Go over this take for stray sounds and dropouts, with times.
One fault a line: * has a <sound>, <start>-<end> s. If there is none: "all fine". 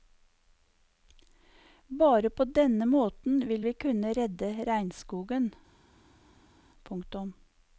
all fine